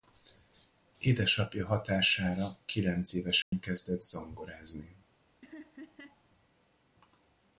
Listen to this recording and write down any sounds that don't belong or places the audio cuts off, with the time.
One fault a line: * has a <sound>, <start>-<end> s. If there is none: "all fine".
* has a dropout, 3.4-3.5 s
* has a laugh, 5.4-6.2 s